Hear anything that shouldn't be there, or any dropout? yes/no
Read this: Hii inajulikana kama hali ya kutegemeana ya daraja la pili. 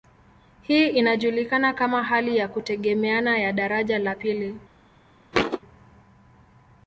yes